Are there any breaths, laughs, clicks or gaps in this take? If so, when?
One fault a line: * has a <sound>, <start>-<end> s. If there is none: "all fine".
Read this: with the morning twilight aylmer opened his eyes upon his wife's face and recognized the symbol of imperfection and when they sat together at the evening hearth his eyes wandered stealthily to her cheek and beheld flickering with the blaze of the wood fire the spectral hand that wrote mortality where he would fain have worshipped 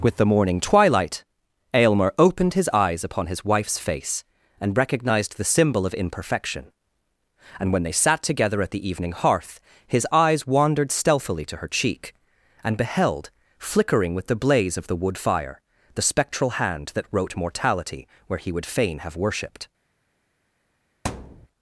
* has a thud, 21.0-21.5 s